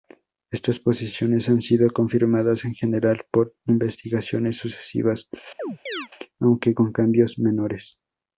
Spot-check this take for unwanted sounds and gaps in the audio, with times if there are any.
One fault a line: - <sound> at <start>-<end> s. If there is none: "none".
- chirp at 5.6-6.1 s